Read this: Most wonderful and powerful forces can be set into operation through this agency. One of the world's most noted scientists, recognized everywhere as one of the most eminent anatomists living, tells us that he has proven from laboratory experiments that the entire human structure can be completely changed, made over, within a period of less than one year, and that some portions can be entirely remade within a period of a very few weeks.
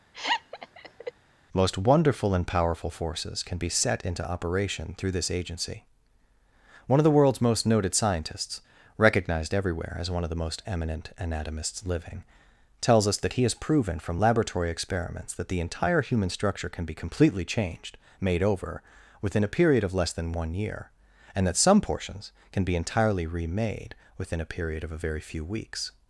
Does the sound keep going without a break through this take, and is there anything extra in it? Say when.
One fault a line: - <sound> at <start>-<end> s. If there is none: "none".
- laugh at 0.1-1.1 s